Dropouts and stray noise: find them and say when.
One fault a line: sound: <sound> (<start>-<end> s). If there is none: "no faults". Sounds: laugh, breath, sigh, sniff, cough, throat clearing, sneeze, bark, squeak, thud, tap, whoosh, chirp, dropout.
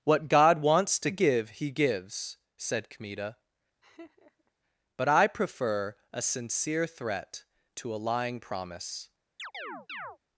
sound: laugh (3.8-4.5 s)
sound: chirp (9.4-10.2 s)